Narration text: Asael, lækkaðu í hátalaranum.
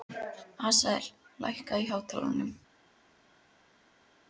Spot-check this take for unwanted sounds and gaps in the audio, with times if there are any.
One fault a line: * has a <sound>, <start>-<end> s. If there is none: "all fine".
all fine